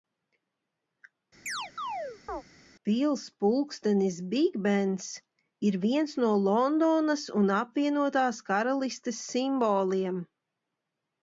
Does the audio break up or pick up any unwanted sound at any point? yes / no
yes